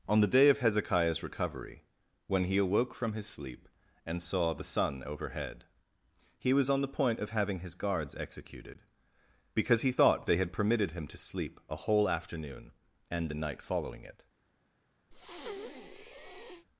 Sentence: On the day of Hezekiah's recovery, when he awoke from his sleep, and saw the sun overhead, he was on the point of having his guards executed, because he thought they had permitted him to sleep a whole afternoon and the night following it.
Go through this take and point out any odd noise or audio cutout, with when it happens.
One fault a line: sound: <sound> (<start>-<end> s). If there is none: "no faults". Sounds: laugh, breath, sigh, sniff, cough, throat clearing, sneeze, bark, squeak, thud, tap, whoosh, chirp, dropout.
sound: breath (15.1-16.7 s)